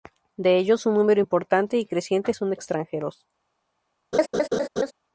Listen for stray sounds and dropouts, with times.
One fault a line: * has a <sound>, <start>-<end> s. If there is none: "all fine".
* has a laugh, 4.1-4.9 s